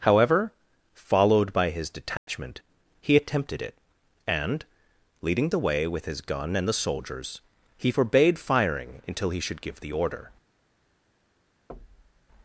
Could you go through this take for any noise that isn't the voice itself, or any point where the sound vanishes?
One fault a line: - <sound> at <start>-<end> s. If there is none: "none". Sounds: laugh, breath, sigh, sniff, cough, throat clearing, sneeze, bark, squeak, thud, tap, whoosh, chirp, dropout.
- dropout at 2.2-2.3 s
- thud at 11.7-12.3 s